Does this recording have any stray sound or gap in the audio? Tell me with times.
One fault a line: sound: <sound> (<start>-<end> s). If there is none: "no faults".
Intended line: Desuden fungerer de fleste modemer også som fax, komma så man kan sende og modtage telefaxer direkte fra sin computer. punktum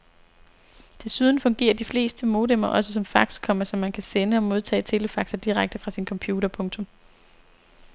no faults